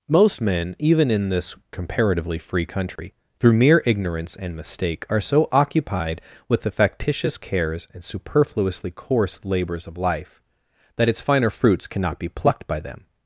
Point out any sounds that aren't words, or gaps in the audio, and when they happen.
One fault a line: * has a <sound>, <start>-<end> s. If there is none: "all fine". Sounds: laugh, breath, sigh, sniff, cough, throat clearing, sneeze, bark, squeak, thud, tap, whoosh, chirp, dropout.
* has a dropout, 3.0-3.0 s